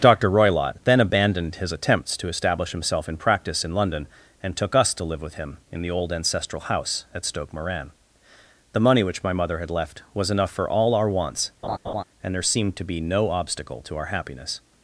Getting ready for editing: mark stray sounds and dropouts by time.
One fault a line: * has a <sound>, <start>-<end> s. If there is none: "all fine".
* has a laugh, 11.6-12.0 s